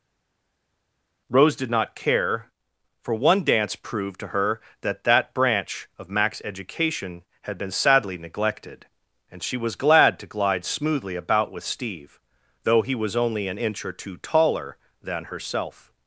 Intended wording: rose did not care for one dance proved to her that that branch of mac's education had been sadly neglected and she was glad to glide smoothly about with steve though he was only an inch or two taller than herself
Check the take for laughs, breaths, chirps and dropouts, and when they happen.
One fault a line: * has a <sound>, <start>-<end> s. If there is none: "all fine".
all fine